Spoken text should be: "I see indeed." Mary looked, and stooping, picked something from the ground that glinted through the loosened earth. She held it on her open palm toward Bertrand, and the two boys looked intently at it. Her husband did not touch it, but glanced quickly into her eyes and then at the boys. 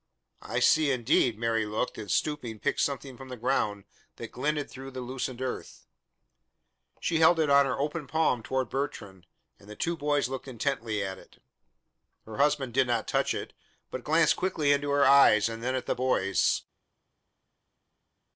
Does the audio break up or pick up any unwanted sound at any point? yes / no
no